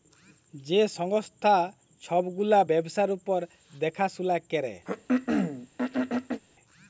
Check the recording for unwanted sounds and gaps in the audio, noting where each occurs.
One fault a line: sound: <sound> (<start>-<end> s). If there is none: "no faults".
sound: throat clearing (4.9-6.4 s)